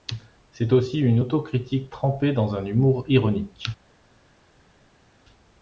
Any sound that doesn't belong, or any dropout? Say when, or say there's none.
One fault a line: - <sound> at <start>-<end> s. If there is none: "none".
none